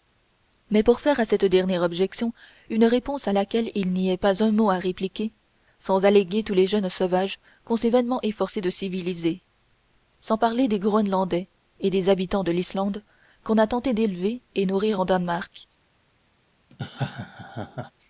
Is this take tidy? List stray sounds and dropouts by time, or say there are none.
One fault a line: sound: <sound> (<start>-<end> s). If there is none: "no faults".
sound: laugh (16.7-17.9 s)